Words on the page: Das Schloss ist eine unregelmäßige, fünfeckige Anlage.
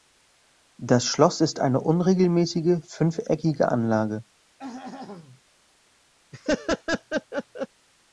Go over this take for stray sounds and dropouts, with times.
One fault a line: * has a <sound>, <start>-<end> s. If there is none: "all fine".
* has a throat clearing, 4.6-5.4 s
* has a laugh, 6.3-7.7 s